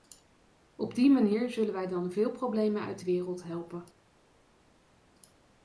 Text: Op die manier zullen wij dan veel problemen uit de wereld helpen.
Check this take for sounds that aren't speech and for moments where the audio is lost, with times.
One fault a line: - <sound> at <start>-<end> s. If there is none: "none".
none